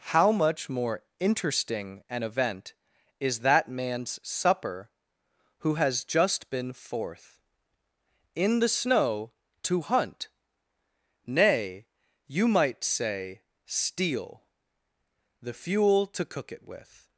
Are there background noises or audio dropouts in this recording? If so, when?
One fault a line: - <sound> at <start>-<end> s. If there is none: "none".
none